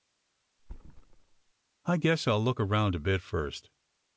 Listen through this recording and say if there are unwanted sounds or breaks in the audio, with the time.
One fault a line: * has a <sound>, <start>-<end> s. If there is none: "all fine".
* has a thud, 0.6-1.5 s